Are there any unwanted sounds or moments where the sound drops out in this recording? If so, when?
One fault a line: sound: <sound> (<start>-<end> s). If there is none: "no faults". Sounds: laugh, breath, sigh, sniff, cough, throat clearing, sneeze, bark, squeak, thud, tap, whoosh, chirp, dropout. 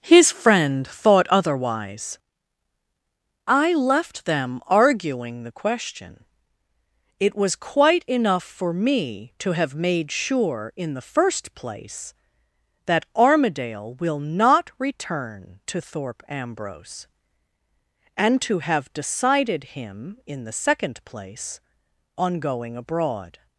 no faults